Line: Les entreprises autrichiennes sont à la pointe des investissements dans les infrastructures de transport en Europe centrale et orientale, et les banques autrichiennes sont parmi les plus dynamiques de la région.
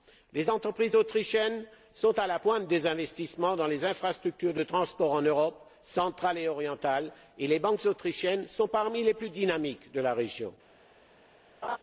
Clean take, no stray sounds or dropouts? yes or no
no